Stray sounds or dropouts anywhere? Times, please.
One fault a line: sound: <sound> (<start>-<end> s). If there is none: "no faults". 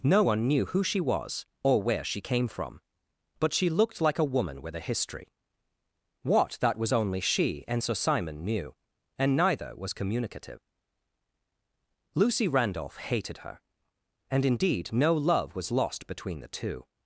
no faults